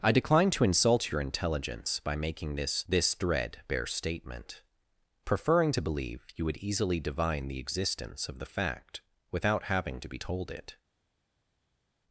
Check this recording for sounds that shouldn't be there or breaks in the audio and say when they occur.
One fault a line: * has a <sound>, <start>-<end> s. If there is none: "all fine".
all fine